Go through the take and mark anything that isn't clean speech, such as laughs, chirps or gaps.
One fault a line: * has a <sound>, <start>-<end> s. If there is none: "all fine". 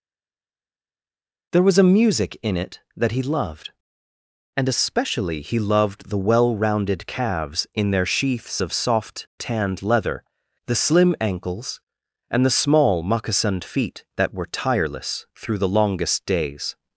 all fine